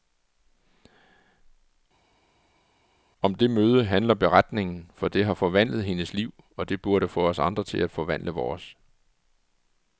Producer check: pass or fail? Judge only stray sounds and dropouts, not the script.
pass